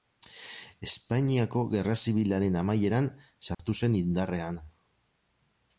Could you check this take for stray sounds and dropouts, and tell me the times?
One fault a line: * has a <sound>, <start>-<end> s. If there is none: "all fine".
* has a dropout, 3.5-3.6 s